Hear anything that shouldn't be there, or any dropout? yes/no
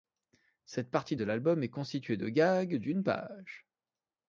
no